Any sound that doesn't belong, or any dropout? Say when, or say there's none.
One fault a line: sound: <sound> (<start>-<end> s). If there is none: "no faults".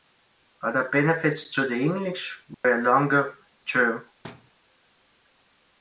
sound: dropout (2.5-2.6 s)
sound: thud (4.2-4.5 s)